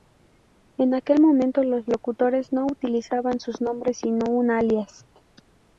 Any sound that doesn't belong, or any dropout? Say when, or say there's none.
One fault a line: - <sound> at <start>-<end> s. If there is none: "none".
none